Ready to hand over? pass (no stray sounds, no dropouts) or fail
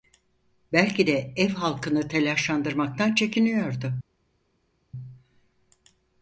pass